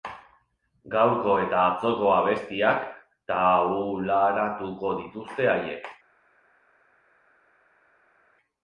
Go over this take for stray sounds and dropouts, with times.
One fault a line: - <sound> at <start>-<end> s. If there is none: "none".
none